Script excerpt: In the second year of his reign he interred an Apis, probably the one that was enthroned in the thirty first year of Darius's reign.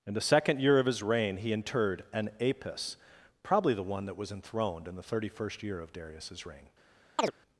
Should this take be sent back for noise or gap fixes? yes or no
yes